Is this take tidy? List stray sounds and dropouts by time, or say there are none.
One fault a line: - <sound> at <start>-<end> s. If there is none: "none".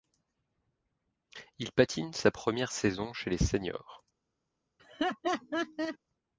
- laugh at 4.8-6.0 s